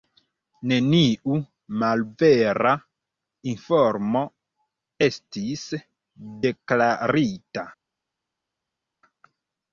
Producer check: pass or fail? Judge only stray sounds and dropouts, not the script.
pass